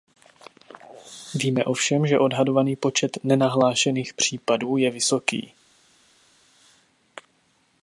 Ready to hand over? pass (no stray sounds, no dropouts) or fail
pass